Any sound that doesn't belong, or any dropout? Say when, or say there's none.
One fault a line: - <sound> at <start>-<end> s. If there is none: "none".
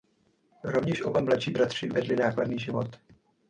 none